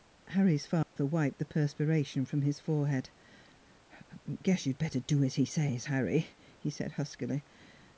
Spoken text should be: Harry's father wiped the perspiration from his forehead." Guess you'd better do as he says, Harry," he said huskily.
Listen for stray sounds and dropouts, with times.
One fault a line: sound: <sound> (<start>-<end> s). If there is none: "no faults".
sound: dropout (0.8-1.0 s)